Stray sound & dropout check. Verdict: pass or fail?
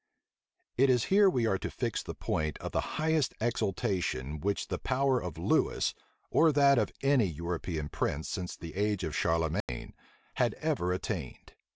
fail